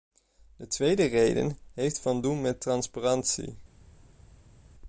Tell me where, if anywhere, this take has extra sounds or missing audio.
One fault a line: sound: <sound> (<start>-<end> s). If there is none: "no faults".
no faults